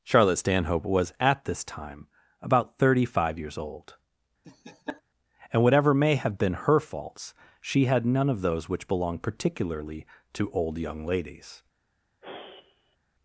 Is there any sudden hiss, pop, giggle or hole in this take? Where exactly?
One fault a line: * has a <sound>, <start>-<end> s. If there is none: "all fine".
* has a laugh, 4.4-5.0 s
* has a sigh, 12.2-13.0 s